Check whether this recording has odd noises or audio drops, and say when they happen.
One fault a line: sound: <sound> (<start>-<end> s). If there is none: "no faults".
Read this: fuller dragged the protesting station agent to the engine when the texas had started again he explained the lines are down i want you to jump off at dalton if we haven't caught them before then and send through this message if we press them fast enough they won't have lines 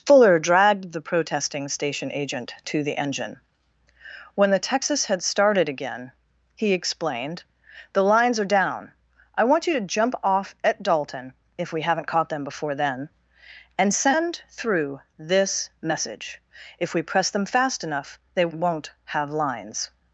no faults